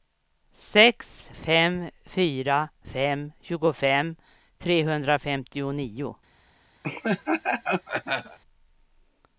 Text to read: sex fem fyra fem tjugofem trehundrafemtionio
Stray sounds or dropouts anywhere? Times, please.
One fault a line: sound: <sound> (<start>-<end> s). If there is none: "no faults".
sound: laugh (6.8-8.4 s)